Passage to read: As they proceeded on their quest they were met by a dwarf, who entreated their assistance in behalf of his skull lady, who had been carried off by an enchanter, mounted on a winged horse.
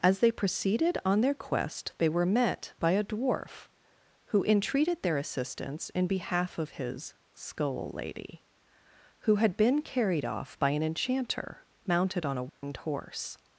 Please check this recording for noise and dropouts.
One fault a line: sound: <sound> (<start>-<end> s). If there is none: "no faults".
sound: dropout (12.5-12.6 s)